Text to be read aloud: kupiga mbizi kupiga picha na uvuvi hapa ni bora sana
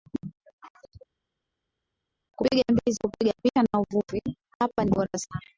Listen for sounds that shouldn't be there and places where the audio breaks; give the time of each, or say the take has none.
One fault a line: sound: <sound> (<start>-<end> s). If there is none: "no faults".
no faults